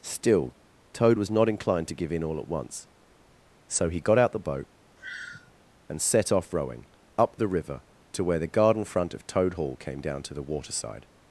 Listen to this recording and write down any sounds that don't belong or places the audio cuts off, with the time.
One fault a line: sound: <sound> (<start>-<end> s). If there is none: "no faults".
sound: sigh (5.0-5.5 s)